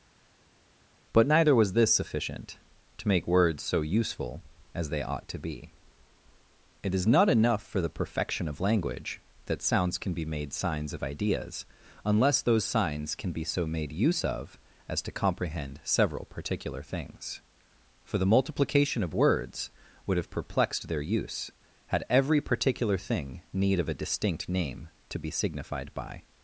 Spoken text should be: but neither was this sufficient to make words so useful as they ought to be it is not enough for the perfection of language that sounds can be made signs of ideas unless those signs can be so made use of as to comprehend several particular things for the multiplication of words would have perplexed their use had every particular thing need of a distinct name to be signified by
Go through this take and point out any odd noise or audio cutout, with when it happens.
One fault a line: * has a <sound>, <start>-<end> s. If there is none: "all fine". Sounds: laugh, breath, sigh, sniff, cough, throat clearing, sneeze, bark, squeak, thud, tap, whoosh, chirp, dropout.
all fine